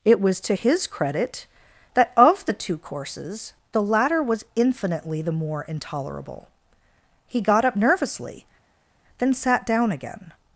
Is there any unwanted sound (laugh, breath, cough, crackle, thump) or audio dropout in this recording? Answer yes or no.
no